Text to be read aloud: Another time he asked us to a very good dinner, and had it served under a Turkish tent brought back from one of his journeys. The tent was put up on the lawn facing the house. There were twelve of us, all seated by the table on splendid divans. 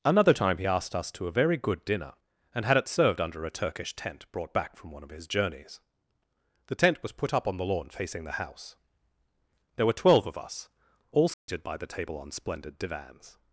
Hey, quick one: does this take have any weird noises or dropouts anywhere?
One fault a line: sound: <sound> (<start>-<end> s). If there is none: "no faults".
sound: dropout (11.3-11.5 s)